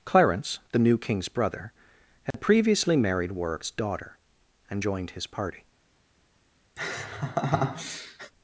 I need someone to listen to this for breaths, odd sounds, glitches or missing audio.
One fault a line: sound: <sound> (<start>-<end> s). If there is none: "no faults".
sound: dropout (2.3-2.3 s)
sound: laugh (6.8-8.3 s)